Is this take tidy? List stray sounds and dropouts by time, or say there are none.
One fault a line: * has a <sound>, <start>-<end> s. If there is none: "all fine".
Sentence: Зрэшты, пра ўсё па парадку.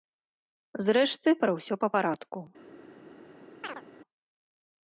* has a chirp, 3.6-3.8 s